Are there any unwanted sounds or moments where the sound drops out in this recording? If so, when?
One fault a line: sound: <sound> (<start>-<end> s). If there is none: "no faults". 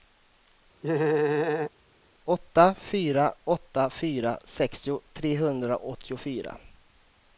sound: laugh (0.8-1.7 s)